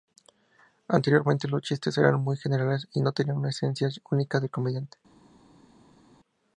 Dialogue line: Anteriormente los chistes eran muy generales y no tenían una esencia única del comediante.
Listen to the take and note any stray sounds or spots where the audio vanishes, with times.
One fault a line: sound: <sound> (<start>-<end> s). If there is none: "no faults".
no faults